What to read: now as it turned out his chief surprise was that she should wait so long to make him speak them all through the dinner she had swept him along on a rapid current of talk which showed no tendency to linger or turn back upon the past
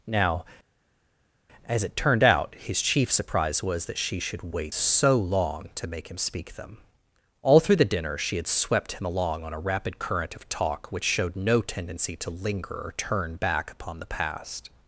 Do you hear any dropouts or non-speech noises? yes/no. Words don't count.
no